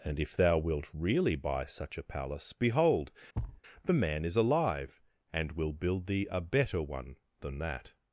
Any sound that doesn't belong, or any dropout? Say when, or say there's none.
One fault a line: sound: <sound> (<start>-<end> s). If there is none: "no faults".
sound: thud (3.3-3.6 s)